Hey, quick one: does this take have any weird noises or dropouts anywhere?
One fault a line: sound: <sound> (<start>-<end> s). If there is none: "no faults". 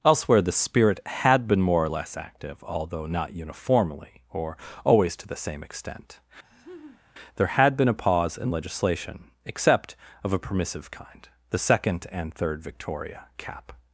sound: laugh (6.4-7.0 s)